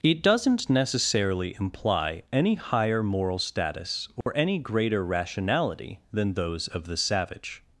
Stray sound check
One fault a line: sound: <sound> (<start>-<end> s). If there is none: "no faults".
sound: dropout (4.2-4.3 s)